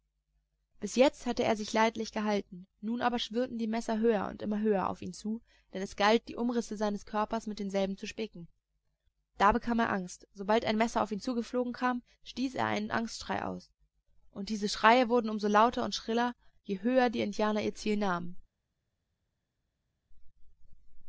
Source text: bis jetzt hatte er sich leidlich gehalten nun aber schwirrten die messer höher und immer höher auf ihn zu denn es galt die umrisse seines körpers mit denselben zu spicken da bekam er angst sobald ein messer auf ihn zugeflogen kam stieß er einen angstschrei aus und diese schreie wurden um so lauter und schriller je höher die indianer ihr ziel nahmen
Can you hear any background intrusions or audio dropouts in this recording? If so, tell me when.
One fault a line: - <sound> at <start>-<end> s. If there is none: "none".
none